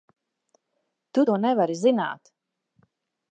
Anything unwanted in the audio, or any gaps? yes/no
no